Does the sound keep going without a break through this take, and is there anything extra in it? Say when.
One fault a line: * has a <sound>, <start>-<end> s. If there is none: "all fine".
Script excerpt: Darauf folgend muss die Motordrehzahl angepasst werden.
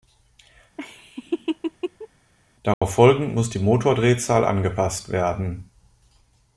* has a laugh, 0.8-2.1 s
* has a dropout, 2.7-2.8 s